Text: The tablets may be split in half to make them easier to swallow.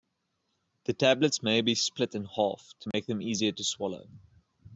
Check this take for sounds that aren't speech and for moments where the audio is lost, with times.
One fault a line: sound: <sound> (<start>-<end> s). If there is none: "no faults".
sound: dropout (2.9-2.9 s)